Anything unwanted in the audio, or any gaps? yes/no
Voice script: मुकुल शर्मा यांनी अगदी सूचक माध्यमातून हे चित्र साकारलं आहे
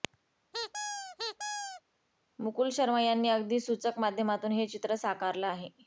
yes